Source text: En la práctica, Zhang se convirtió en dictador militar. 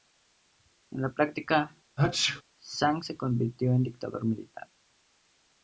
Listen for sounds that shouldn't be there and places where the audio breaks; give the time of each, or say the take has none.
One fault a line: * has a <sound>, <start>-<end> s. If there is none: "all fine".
* has a sneeze, 2.0-2.4 s